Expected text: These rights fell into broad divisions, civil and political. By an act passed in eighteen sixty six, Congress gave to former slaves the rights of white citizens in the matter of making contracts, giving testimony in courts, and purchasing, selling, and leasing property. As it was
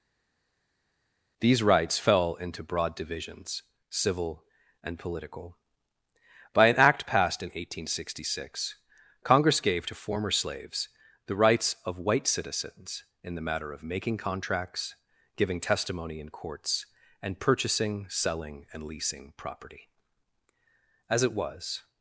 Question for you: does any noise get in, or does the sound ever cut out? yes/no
no